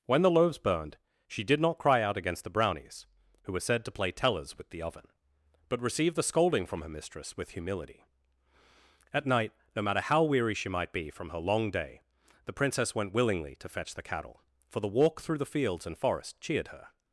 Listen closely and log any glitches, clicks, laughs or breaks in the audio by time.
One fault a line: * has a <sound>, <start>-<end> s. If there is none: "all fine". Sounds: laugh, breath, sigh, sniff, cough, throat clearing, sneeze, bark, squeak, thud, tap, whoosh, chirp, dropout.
all fine